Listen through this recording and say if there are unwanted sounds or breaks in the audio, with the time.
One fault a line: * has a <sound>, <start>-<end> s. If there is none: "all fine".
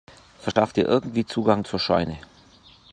* has a dropout, 0.5-0.6 s